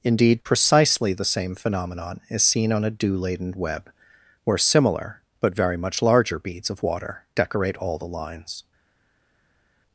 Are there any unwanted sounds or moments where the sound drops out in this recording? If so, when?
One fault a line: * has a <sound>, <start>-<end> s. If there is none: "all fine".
all fine